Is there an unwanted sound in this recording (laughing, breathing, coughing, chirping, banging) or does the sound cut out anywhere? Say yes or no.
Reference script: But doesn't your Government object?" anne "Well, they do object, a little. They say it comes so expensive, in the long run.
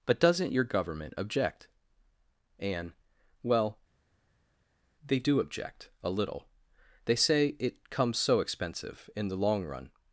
no